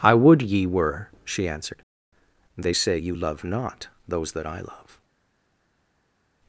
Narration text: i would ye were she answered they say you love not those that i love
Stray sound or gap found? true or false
false